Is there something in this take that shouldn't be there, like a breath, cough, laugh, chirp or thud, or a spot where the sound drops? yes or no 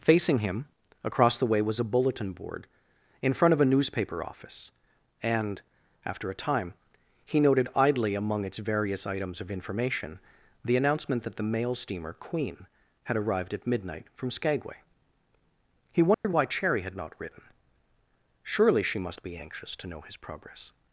yes